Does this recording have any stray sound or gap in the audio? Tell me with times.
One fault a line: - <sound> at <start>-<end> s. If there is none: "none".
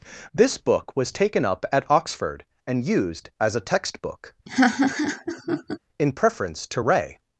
- laugh at 4.5-5.8 s